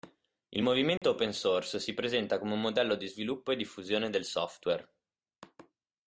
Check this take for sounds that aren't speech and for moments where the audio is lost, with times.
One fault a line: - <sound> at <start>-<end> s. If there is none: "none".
- dropout at 1.0-1.0 s